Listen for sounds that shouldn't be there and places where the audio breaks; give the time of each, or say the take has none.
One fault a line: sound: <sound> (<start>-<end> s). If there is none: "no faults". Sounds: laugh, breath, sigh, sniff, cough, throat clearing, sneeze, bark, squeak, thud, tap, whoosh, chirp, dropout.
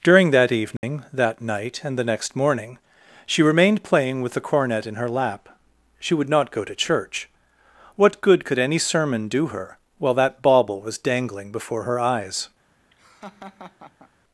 sound: dropout (0.8-0.8 s)
sound: laugh (12.9-14.1 s)